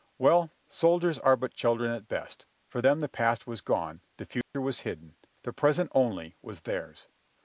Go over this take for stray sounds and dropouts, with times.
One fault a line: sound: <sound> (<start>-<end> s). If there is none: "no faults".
sound: dropout (4.4-4.5 s)